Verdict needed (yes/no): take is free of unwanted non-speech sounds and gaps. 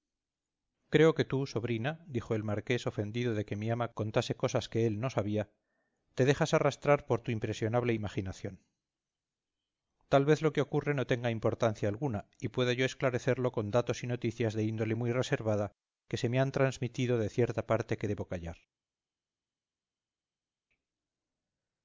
yes